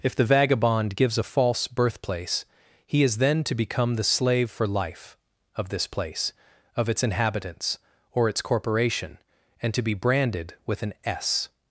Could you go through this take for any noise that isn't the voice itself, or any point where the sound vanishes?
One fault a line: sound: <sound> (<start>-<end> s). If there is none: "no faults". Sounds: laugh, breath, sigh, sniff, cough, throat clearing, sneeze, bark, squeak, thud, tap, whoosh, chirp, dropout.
no faults